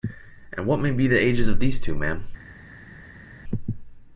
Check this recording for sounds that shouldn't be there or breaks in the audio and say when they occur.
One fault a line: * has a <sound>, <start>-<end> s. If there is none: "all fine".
all fine